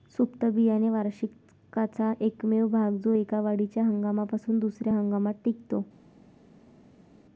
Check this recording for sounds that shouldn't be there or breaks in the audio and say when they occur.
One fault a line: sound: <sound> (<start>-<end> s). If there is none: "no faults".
no faults